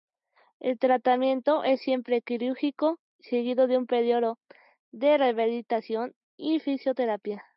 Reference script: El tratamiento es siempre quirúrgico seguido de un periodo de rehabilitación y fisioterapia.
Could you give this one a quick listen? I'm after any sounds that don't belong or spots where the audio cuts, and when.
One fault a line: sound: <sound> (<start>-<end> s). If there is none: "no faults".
no faults